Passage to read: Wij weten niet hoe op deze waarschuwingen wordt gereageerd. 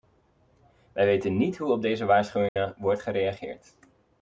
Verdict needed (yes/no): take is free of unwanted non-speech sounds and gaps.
no